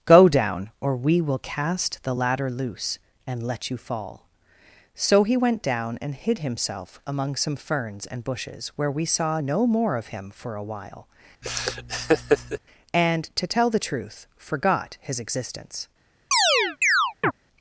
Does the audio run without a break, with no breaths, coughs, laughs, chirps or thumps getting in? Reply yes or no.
no